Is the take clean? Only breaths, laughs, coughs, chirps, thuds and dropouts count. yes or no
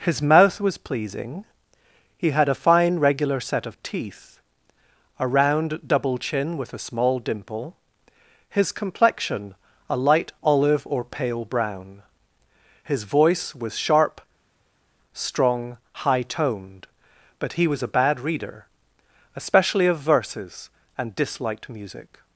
yes